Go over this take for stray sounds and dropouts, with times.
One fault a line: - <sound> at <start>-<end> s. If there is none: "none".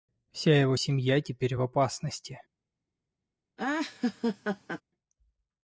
- laugh at 3.6-4.8 s